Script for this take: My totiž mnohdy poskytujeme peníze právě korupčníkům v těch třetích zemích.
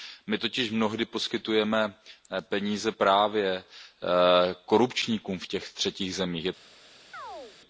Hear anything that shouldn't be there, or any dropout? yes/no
yes